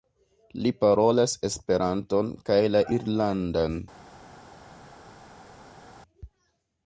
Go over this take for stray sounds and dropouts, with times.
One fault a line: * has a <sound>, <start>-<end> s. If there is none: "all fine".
all fine